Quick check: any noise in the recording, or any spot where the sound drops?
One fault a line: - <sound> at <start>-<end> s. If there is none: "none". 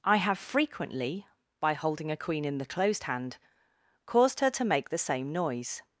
none